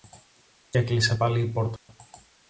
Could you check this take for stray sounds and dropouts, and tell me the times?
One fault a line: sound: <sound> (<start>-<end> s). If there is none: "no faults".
sound: dropout (1.8-1.9 s)